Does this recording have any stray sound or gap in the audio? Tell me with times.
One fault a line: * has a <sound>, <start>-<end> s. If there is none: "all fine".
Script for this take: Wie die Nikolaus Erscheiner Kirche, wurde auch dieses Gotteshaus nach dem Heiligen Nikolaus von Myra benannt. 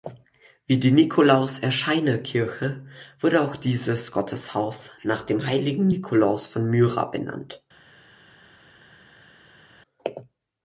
all fine